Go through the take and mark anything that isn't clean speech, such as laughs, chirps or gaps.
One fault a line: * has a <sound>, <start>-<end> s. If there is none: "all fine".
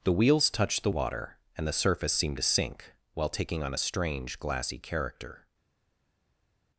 all fine